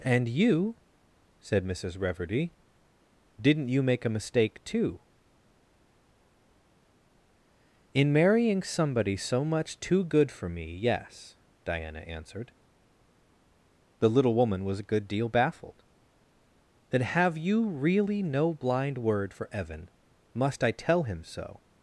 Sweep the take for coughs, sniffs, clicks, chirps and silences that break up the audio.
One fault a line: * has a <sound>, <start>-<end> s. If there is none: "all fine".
all fine